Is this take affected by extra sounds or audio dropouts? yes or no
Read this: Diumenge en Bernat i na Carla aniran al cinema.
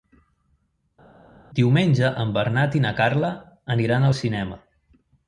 no